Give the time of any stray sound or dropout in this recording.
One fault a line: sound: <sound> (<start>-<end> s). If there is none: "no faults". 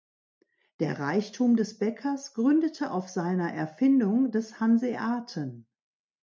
no faults